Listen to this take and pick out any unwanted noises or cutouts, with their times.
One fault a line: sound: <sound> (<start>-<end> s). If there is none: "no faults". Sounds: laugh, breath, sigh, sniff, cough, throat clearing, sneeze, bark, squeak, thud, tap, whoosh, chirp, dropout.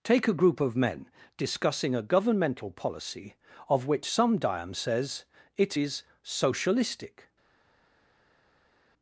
no faults